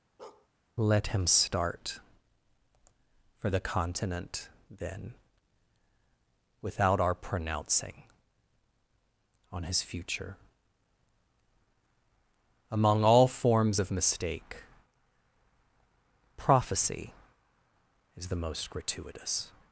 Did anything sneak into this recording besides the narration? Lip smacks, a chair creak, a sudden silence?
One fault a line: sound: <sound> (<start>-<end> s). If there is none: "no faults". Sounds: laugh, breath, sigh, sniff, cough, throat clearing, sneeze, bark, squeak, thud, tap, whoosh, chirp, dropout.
sound: bark (0.2-0.5 s)